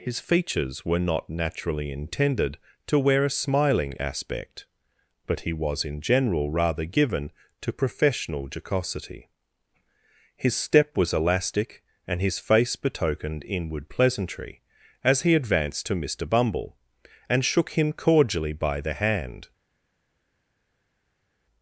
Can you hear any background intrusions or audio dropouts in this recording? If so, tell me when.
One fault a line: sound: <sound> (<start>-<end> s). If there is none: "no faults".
no faults